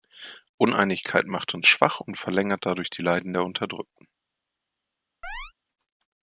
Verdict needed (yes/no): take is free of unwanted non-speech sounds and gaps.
no